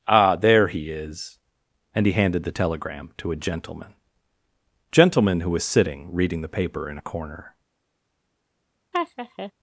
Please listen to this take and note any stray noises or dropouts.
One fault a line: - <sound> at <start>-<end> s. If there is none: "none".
- laugh at 8.9-9.5 s